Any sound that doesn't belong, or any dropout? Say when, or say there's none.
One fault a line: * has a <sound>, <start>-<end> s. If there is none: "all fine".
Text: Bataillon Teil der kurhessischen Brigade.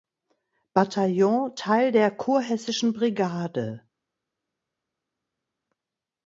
all fine